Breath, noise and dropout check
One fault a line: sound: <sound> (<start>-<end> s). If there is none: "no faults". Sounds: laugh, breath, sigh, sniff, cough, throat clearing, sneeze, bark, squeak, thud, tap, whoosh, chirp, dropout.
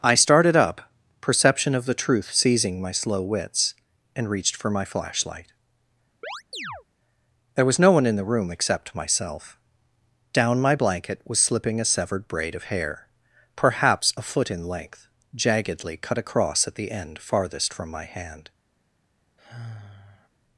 sound: chirp (6.2-6.8 s)
sound: sigh (19.4-20.3 s)